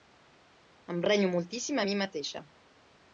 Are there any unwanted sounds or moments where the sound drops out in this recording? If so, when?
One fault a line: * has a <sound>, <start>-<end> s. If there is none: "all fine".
all fine